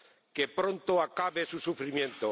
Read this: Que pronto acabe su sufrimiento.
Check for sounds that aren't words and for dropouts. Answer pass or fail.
pass